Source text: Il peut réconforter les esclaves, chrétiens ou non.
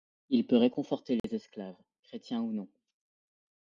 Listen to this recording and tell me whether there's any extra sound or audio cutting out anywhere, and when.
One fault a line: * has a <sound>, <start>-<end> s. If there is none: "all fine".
* has a dropout, 1.2-1.2 s